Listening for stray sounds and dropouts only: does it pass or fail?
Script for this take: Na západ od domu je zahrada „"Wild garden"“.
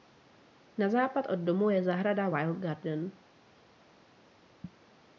pass